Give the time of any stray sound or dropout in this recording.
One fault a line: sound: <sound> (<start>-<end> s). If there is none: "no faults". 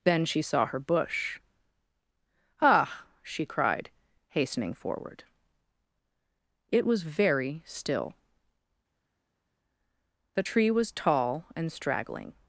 no faults